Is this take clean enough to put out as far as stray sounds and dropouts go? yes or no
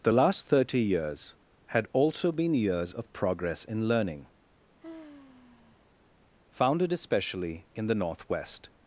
no